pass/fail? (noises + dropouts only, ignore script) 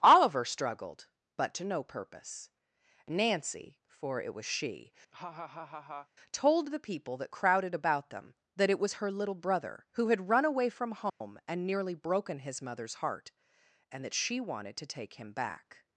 fail